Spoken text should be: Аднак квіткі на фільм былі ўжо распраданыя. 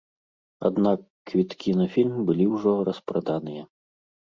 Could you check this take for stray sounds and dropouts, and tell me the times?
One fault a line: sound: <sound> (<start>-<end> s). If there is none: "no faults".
no faults